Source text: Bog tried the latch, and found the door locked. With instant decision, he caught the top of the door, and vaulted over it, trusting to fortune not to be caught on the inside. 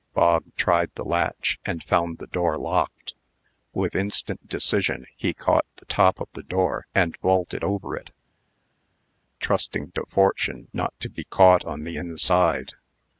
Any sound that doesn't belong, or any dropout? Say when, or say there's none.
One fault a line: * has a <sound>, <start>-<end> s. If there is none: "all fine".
all fine